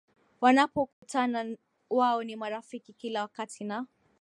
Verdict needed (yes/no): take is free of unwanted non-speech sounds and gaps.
no